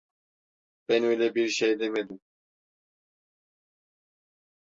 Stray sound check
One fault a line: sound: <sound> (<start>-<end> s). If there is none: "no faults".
no faults